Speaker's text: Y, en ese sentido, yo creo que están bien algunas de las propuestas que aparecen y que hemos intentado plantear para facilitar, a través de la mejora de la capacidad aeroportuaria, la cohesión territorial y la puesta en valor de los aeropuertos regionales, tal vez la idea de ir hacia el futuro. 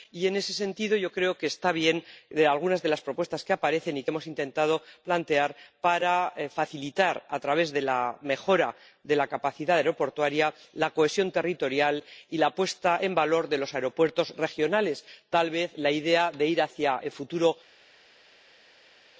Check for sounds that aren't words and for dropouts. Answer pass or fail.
pass